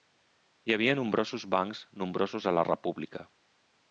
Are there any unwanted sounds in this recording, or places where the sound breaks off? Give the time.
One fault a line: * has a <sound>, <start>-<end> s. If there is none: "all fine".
all fine